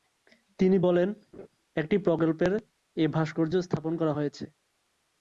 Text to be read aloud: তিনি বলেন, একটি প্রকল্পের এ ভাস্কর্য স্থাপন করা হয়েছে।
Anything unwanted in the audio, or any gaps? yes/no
yes